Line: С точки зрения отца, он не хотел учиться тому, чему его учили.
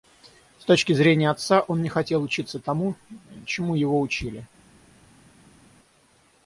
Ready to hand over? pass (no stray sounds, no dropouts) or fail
pass